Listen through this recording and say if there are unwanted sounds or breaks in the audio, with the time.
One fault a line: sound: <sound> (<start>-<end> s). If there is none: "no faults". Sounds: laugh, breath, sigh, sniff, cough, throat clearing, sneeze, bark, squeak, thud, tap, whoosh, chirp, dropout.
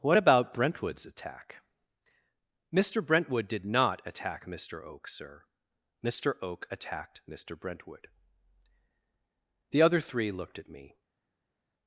no faults